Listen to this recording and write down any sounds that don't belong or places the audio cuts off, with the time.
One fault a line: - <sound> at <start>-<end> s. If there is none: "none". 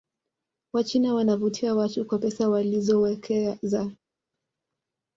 none